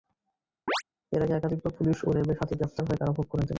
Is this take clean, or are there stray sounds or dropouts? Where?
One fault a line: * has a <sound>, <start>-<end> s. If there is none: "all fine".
* has a chirp, 0.7-0.8 s